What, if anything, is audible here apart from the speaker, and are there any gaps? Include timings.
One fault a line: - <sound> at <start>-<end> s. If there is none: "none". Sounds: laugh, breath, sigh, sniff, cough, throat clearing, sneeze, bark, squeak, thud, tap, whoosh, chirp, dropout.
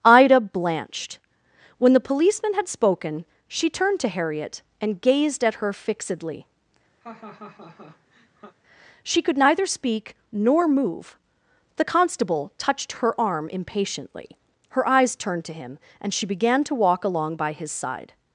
- laugh at 7.0-8.6 s